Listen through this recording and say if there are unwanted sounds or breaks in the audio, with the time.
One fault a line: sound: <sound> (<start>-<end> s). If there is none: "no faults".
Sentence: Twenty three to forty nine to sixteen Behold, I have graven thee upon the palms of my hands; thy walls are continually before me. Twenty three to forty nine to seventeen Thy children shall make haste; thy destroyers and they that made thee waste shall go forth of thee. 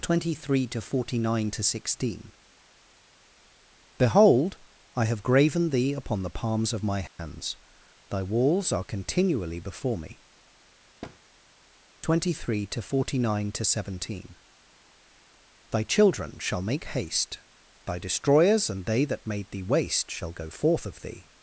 sound: dropout (7.1-7.2 s)
sound: thud (11.0-11.2 s)